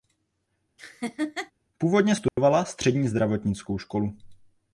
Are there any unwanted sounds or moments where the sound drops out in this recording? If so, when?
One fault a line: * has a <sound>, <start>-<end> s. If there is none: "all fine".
* has a laugh, 0.8-1.5 s
* has a dropout, 2.3-2.4 s